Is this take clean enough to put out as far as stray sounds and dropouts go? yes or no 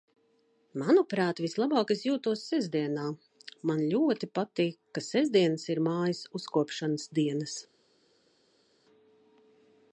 yes